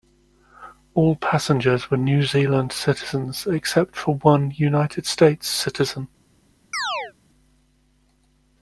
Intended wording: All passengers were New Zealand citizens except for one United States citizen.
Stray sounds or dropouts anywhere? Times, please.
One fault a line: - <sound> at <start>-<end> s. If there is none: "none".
- chirp at 6.7-7.1 s